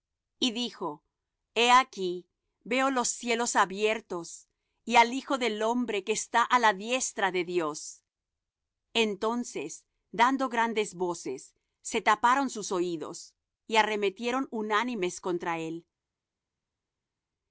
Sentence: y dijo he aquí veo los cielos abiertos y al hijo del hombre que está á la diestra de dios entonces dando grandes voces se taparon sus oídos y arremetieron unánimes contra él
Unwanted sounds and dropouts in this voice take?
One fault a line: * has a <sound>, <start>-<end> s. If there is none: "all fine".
all fine